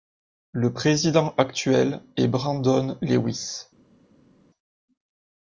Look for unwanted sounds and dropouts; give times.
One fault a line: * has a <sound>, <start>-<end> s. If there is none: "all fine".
all fine